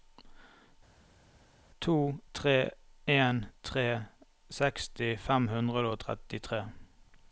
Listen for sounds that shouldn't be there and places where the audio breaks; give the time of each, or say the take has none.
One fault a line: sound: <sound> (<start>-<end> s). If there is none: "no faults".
no faults